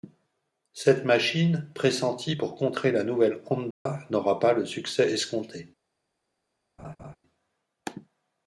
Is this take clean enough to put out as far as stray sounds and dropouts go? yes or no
no